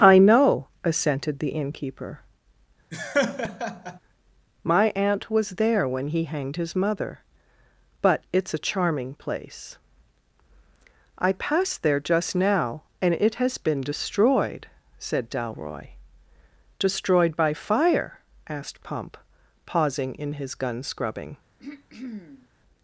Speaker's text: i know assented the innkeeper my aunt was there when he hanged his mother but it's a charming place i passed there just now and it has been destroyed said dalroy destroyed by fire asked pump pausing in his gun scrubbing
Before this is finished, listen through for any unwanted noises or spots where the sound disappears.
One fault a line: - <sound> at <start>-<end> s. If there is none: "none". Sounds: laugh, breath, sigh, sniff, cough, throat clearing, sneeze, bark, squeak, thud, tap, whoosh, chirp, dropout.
- laugh at 2.9-4.0 s
- throat clearing at 21.6-22.5 s